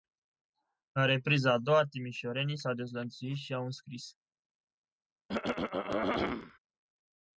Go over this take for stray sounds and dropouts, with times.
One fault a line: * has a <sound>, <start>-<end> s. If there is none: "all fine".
* has a throat clearing, 5.3-6.6 s